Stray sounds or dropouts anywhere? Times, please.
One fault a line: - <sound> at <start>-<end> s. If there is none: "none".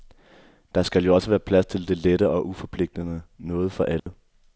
- dropout at 4.0-4.1 s